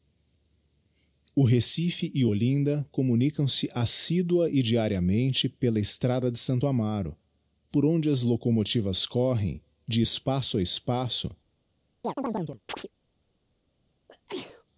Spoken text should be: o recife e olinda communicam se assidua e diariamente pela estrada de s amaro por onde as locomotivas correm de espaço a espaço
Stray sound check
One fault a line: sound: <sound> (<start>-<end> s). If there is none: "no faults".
sound: chirp (12.0-12.9 s)
sound: sneeze (14.1-14.6 s)